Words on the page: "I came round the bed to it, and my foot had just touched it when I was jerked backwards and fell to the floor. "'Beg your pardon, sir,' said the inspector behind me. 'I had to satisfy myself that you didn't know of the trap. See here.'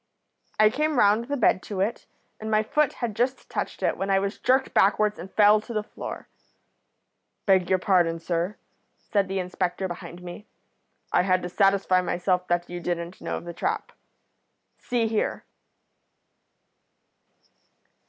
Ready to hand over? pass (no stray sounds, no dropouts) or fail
pass